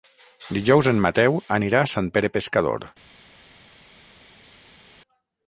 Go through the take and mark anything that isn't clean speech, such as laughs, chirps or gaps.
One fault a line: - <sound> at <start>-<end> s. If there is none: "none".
none